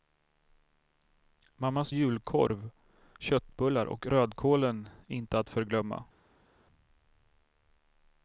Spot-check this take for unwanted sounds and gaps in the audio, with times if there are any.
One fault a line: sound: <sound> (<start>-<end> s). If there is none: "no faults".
no faults